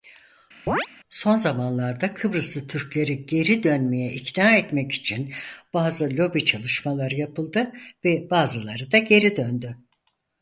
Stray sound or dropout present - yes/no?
yes